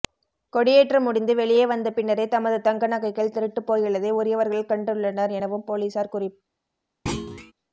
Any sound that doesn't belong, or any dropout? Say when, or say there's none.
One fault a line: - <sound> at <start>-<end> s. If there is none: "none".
- thud at 7.1-7.5 s